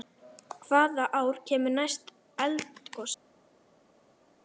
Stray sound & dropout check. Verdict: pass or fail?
pass